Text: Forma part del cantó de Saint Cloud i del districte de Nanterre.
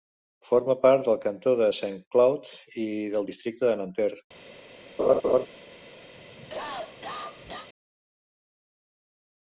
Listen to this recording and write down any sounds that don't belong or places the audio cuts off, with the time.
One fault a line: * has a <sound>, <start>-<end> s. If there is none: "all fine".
* has a laugh, 5.0-5.5 s
* has a cough, 6.1-7.7 s